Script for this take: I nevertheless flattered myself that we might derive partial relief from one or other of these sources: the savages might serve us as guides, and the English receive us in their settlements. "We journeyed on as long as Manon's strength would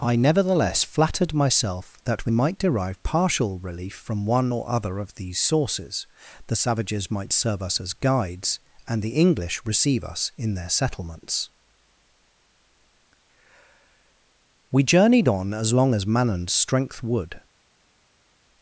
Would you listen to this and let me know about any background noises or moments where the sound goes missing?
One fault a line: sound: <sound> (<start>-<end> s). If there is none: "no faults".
no faults